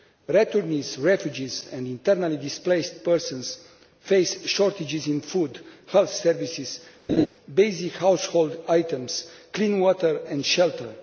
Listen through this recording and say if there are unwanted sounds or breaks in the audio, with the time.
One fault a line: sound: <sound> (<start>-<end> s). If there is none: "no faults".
sound: laugh (7.1-7.3 s)